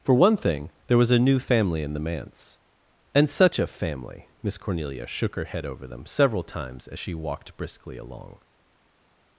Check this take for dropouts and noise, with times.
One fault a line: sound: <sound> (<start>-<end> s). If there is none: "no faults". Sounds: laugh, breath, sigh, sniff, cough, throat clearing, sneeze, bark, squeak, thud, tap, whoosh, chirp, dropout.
no faults